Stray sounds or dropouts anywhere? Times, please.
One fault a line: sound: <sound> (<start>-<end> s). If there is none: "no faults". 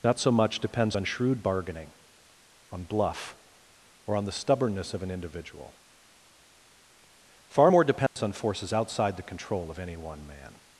sound: dropout (8.1-8.2 s)